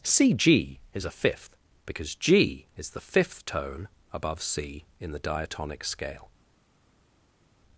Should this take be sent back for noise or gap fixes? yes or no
no